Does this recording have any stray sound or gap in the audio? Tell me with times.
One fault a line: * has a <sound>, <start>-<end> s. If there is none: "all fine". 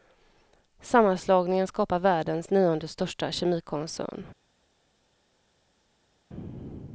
all fine